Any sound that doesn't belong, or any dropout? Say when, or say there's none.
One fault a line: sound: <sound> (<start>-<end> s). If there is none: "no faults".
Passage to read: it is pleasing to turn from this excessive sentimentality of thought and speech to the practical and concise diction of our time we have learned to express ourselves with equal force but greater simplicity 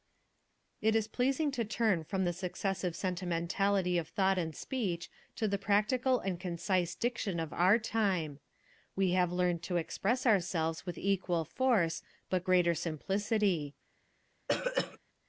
sound: throat clearing (14.5-15.0 s)